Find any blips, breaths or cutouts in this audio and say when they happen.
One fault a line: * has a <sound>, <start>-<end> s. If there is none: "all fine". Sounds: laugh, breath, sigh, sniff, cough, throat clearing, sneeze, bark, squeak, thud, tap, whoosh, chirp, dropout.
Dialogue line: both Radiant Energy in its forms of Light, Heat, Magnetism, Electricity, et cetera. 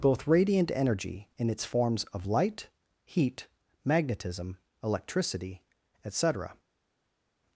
all fine